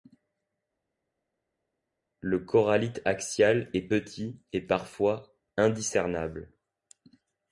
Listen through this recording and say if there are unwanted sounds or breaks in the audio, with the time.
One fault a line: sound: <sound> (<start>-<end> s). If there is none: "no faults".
no faults